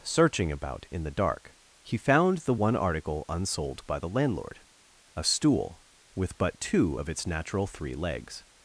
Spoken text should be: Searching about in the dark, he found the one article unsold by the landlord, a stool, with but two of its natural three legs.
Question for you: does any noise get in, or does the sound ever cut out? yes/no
no